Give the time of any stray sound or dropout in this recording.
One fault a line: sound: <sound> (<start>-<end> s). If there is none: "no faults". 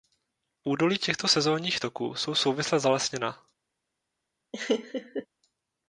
sound: laugh (4.5-5.3 s)